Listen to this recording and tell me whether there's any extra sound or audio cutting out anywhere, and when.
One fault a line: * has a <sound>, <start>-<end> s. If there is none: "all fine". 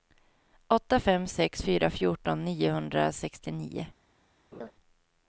* has a laugh, 4.5-4.7 s